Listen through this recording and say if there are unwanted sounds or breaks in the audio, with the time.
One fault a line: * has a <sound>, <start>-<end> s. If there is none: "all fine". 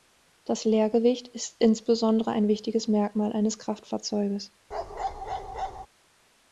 * has a bark, 4.7-5.9 s